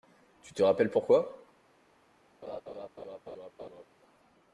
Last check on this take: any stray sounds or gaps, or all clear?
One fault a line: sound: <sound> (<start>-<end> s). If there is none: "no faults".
sound: laugh (2.4-3.9 s)